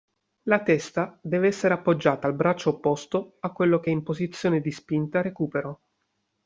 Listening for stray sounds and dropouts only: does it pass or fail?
pass